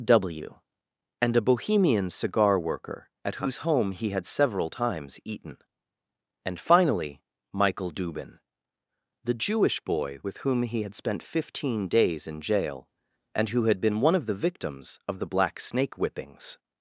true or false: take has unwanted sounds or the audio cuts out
false